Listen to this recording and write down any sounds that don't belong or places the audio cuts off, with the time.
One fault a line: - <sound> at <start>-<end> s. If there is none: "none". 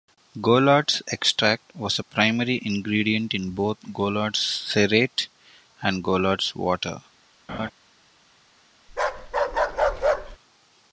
- laugh at 7.5-7.7 s
- bark at 8.9-10.4 s